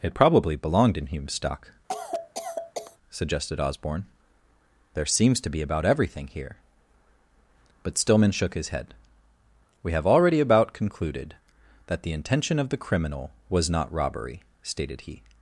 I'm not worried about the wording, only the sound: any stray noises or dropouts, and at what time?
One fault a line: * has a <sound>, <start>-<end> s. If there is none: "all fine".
* has a cough, 1.9-3.0 s